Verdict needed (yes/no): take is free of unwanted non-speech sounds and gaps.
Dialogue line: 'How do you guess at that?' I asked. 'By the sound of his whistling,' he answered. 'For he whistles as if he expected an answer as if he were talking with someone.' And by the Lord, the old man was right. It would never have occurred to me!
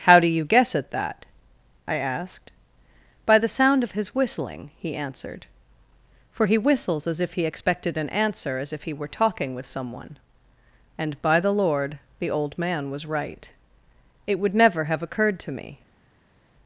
yes